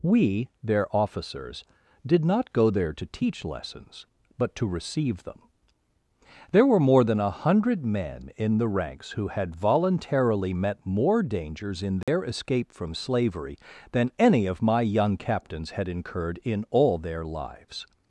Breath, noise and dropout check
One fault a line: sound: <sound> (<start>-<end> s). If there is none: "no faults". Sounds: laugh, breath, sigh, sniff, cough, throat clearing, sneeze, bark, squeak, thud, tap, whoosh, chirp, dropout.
sound: dropout (12.0-12.1 s)